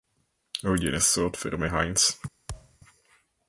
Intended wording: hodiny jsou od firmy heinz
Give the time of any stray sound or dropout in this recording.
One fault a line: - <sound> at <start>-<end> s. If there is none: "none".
- thud at 2.5-2.8 s